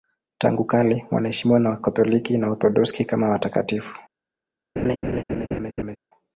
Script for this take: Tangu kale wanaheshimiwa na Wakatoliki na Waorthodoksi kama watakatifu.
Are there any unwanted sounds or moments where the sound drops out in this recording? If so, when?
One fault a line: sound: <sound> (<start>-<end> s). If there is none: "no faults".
sound: laugh (4.8-6.0 s)